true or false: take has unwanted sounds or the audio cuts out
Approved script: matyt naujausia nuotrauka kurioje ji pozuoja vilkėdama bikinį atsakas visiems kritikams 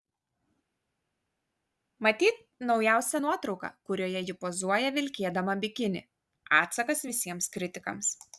false